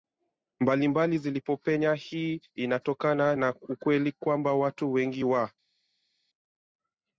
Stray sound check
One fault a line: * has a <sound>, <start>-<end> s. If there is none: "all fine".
all fine